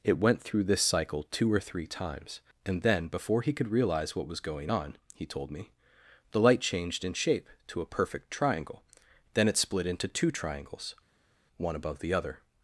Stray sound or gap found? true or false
false